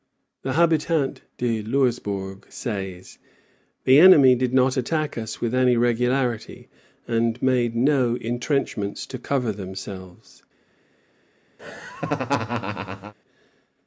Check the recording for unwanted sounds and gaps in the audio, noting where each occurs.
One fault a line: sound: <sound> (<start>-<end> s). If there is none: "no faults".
sound: laugh (11.6-13.1 s)